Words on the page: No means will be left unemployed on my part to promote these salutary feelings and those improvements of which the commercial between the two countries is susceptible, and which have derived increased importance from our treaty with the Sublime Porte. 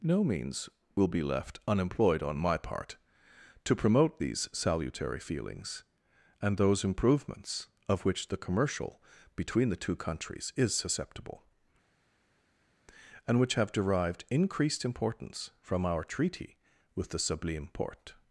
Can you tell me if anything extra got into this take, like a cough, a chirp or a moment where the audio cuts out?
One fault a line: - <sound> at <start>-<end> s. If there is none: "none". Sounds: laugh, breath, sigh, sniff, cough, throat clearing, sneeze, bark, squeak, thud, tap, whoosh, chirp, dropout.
none